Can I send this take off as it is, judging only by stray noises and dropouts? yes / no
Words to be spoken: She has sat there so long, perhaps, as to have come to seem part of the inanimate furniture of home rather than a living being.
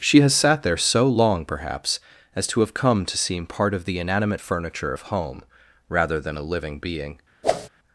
no